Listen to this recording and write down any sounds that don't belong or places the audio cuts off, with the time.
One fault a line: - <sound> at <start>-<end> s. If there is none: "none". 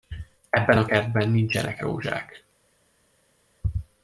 none